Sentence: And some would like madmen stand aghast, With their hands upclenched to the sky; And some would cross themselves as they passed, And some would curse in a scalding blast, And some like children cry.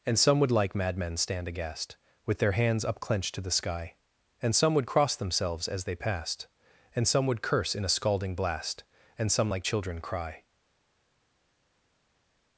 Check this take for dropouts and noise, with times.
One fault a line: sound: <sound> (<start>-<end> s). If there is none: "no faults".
no faults